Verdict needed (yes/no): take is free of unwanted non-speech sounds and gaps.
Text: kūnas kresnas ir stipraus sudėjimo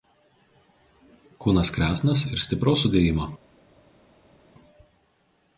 yes